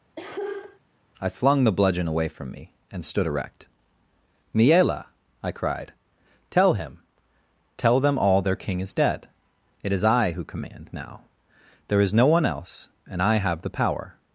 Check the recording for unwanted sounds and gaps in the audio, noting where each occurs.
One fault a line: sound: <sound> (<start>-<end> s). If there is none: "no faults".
sound: cough (0.2-0.8 s)